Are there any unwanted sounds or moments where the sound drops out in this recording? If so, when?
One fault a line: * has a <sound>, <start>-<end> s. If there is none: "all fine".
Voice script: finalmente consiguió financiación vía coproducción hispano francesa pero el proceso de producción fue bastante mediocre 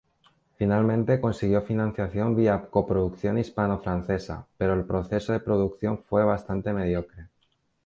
all fine